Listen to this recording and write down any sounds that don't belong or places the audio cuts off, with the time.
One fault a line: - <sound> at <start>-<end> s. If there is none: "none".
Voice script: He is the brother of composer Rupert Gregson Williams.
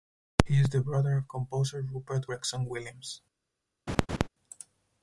- laugh at 3.9-4.3 s